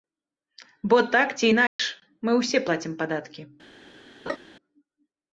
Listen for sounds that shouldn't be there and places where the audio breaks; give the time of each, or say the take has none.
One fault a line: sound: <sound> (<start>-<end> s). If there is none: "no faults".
sound: dropout (1.7-1.8 s)
sound: laugh (4.3-4.4 s)